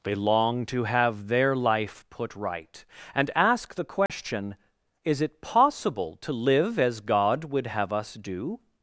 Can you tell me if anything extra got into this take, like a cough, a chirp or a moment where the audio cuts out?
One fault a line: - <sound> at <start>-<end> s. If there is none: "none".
- dropout at 4.1-4.1 s